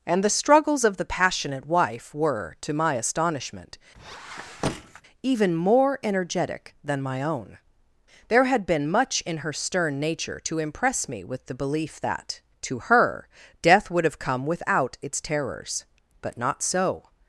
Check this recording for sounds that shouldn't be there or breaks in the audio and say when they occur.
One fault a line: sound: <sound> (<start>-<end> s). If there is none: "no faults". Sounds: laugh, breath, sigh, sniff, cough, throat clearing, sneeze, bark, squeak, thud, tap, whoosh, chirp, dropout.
sound: squeak (3.9-5.0 s)